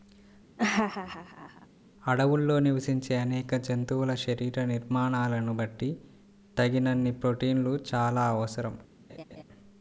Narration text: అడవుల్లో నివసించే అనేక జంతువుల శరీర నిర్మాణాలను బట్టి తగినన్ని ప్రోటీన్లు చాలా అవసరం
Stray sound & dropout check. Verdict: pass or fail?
fail